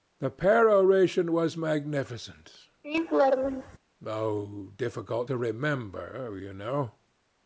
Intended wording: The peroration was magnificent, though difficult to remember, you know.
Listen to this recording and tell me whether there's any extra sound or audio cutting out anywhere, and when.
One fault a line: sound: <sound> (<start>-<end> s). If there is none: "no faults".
sound: laugh (2.8-3.8 s)